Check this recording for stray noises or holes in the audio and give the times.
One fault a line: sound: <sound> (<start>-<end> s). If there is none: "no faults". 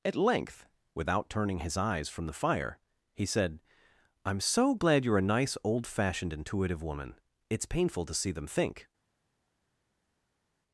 no faults